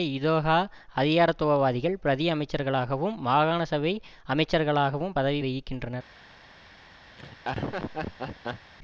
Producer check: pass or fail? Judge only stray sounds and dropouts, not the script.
fail